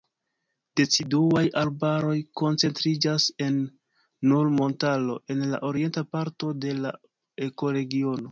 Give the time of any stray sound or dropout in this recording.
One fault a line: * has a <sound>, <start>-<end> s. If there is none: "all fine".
all fine